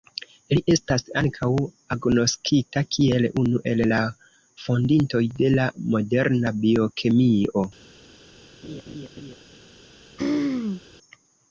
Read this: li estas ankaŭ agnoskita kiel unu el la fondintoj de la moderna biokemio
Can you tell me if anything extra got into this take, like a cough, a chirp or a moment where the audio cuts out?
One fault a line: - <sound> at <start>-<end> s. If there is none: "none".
- laugh at 8.6-9.4 s
- throat clearing at 10.2-10.8 s